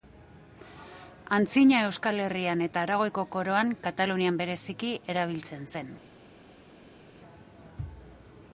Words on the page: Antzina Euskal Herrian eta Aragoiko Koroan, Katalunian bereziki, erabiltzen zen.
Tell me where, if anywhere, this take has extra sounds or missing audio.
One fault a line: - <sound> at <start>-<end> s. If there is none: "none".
none